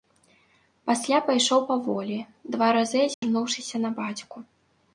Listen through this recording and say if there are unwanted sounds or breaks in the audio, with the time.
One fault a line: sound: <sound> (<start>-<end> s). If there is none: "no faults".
sound: dropout (3.1-3.2 s)